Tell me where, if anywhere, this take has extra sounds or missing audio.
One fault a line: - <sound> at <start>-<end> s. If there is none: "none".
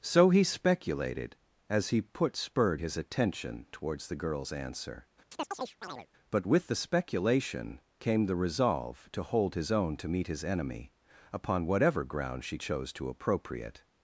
- chirp at 5.3-6.1 s